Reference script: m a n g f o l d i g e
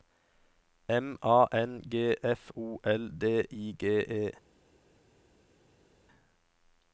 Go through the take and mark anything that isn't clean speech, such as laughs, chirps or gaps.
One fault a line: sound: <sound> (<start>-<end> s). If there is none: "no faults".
no faults